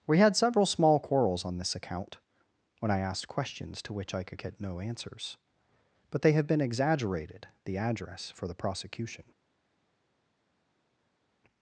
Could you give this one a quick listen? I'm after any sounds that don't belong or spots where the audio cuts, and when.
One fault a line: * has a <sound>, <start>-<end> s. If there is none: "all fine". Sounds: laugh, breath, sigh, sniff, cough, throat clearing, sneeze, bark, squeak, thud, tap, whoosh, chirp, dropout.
all fine